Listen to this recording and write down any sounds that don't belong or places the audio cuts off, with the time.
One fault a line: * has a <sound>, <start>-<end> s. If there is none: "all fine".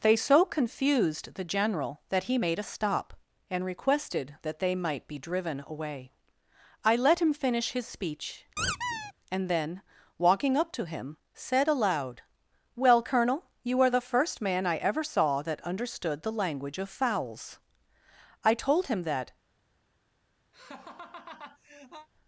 * has a squeak, 8.6-9.1 s
* has a laugh, 20.5-22.1 s